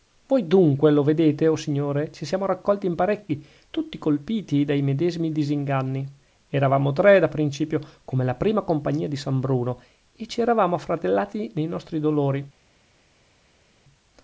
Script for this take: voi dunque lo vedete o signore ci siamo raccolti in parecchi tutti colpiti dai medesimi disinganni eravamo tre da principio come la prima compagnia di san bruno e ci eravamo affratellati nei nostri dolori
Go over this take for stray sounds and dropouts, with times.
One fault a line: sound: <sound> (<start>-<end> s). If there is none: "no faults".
no faults